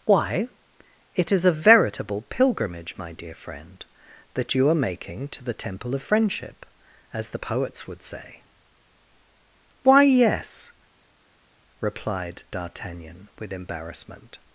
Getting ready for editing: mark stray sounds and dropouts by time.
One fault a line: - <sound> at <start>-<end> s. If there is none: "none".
none